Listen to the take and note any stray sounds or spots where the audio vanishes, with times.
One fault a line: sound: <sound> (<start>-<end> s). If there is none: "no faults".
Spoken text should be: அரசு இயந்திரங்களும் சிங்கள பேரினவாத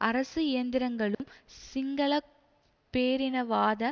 sound: dropout (1.1-1.2 s)